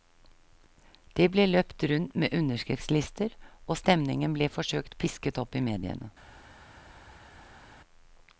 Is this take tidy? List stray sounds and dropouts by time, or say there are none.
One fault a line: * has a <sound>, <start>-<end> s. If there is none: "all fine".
all fine